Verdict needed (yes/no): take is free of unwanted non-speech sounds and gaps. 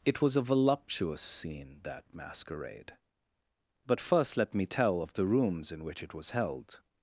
yes